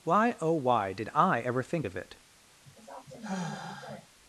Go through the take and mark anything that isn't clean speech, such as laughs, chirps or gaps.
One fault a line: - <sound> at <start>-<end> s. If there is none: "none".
- sigh at 2.6-4.1 s